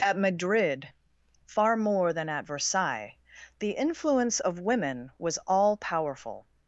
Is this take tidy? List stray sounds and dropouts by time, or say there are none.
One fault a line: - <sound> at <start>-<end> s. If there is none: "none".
none